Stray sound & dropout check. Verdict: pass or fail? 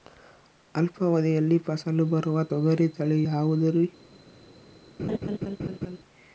fail